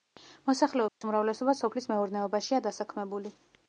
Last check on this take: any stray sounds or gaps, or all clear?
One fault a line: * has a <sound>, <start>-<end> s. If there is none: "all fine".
* has a dropout, 0.9-1.0 s